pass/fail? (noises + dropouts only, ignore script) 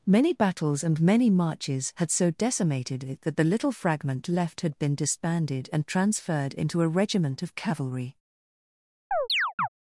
fail